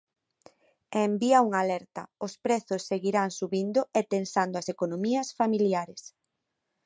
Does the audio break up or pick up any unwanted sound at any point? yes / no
no